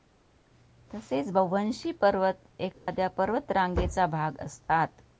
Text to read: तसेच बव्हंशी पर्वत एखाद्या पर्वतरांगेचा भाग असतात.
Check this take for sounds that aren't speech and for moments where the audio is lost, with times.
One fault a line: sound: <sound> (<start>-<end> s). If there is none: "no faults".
sound: dropout (2.7-2.9 s)